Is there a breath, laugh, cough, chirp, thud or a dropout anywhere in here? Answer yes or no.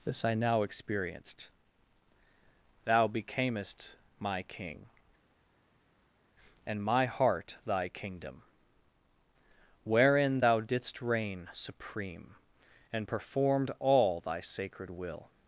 no